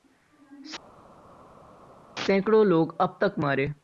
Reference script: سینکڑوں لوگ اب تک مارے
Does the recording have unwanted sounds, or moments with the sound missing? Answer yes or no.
no